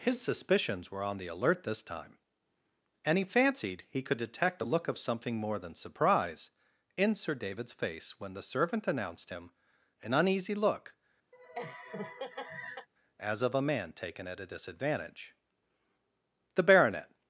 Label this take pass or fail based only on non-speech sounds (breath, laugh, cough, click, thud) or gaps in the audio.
fail